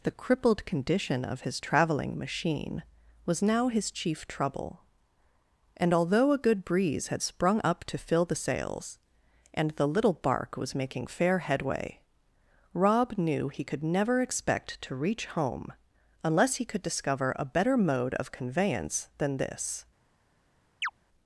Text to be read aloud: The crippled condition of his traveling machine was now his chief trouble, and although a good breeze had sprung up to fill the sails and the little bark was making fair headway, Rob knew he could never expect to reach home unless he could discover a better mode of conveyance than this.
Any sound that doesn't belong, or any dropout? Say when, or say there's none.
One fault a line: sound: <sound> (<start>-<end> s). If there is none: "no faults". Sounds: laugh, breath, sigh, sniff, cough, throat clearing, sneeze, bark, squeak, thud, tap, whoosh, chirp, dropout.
sound: chirp (20.8-20.9 s)